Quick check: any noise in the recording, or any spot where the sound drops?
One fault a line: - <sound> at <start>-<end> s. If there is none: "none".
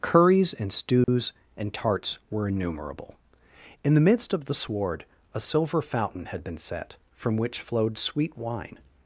- dropout at 1.0-1.1 s